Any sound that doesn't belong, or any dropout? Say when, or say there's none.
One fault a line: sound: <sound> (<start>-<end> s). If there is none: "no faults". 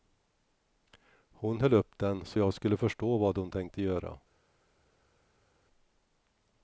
no faults